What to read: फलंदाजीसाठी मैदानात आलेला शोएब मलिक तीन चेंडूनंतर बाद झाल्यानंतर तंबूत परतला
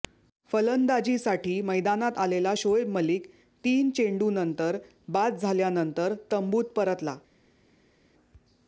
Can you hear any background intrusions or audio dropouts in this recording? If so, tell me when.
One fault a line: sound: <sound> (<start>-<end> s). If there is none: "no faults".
no faults